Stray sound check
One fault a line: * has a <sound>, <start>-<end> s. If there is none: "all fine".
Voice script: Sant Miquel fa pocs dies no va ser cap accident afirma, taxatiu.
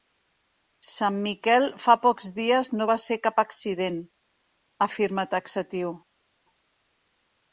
all fine